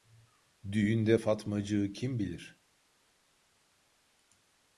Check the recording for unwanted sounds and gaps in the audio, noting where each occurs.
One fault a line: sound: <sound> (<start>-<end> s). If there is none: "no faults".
no faults